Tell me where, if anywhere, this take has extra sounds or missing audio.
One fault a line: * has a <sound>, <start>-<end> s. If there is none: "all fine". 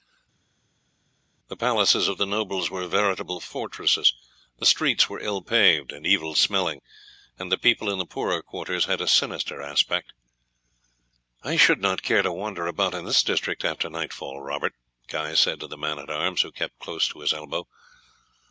all fine